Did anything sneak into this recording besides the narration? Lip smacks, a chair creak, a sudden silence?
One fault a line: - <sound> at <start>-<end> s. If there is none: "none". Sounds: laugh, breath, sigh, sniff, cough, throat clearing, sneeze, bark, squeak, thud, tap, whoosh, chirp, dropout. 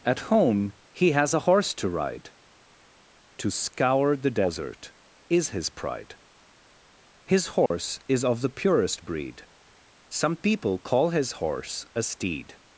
- dropout at 7.7-7.7 s